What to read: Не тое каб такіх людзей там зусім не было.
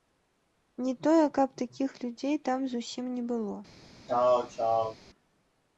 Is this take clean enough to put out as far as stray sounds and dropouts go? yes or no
no